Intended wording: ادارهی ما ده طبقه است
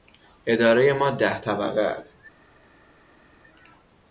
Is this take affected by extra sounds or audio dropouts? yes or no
no